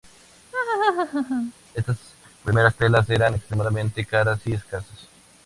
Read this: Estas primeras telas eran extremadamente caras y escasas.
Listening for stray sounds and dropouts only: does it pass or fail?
fail